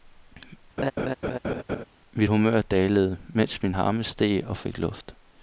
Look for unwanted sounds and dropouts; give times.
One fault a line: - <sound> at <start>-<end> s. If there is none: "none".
- laugh at 0.8-1.8 s